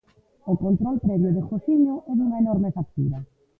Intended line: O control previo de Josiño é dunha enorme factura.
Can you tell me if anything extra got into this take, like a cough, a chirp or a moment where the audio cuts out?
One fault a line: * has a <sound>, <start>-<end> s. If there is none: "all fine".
all fine